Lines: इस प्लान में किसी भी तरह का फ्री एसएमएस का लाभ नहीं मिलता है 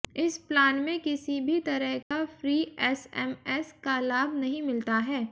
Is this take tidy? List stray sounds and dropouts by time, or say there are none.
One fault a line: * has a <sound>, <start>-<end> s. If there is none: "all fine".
* has a dropout, 2.0-2.1 s